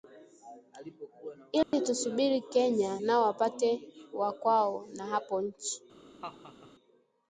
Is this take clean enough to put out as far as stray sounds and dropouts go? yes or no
no